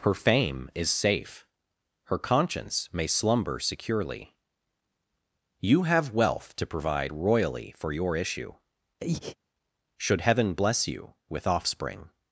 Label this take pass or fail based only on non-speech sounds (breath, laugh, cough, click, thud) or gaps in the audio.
fail